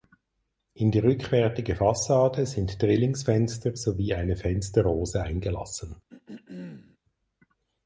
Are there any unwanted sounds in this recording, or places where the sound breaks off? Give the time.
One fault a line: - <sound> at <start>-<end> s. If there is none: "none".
- throat clearing at 6.1-7.0 s